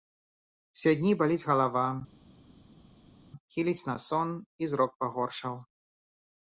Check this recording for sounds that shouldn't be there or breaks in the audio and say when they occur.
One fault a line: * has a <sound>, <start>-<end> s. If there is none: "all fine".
all fine